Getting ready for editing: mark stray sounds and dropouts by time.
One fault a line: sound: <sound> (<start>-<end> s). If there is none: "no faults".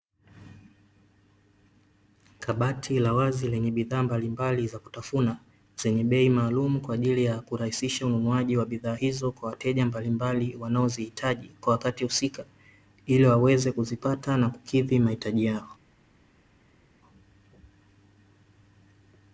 no faults